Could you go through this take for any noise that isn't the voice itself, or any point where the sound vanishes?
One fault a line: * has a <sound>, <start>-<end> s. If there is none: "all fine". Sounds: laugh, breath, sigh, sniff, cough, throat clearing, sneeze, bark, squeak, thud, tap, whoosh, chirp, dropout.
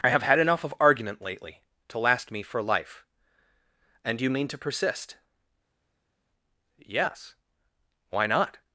all fine